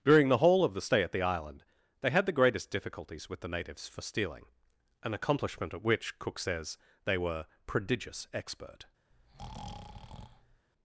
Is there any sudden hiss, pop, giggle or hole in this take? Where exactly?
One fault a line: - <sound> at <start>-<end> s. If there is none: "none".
- breath at 9.1-10.7 s